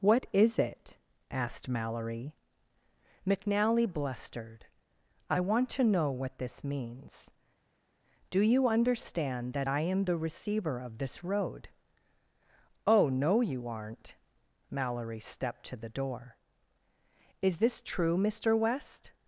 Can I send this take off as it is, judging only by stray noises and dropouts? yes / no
yes